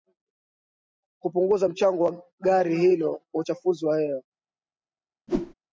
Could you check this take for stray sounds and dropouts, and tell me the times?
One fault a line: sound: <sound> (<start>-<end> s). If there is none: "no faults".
sound: whoosh (5.3-5.5 s)